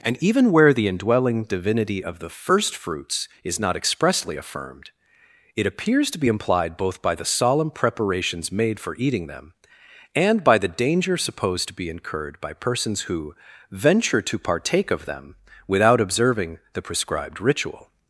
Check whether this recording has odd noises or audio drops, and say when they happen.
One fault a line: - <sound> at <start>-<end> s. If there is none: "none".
none